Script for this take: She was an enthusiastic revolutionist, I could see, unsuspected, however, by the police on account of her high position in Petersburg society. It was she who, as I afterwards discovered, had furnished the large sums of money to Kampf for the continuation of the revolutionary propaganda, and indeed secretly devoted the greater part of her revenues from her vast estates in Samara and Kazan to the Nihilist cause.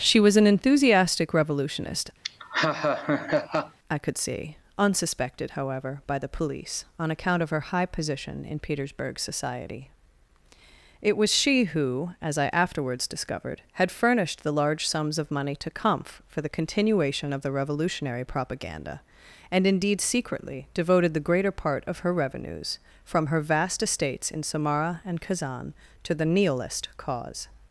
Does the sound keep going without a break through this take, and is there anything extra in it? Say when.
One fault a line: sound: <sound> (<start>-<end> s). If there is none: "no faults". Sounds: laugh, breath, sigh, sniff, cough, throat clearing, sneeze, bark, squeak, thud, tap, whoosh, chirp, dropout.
sound: laugh (2.2-3.8 s)